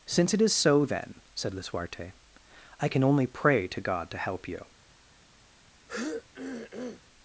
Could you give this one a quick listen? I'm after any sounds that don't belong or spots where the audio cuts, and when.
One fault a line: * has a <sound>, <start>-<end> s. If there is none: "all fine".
* has a throat clearing, 5.9-7.0 s